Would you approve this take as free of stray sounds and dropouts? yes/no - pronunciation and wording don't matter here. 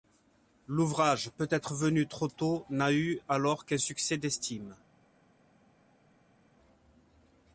yes